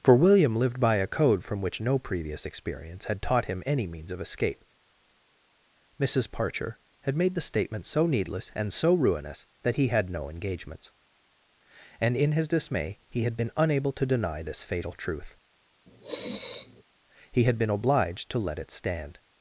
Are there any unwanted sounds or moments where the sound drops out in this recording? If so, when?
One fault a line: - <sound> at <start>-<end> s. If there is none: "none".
- sniff at 15.9-16.8 s